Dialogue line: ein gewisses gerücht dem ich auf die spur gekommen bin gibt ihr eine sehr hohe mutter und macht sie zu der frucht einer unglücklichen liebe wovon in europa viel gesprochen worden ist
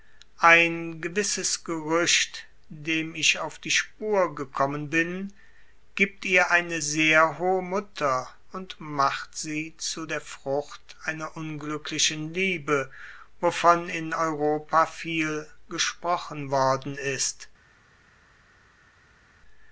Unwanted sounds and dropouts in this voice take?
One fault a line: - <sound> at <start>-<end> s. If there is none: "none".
none